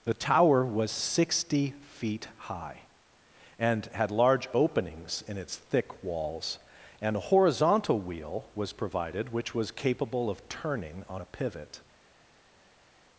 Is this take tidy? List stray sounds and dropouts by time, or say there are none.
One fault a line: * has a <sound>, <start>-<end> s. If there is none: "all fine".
all fine